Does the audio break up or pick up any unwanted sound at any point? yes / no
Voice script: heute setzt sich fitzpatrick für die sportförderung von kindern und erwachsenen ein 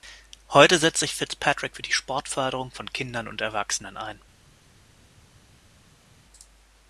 no